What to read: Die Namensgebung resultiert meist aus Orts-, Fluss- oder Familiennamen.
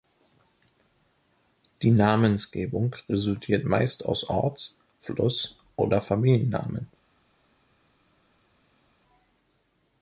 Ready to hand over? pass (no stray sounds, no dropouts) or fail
pass